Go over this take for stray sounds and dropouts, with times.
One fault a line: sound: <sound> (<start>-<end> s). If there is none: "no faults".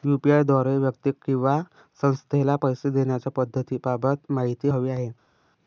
no faults